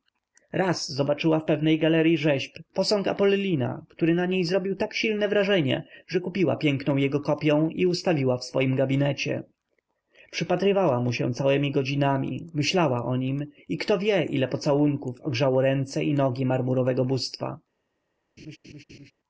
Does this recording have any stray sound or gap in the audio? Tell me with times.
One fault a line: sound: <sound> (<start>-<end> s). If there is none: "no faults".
sound: laugh (18.4-19.1 s)